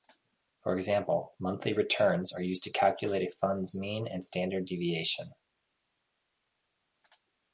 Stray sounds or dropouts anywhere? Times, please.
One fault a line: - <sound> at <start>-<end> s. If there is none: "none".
none